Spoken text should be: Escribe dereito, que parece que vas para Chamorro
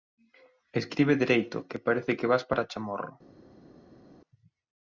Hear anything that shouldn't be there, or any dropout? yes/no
no